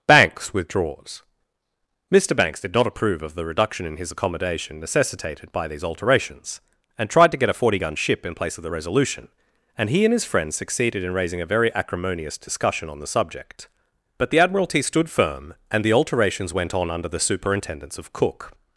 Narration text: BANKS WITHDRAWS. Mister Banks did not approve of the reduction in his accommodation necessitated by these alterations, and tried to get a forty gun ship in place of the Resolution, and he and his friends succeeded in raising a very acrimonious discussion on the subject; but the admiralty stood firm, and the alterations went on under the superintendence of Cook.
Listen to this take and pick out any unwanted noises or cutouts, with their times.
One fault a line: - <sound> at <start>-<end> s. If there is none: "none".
none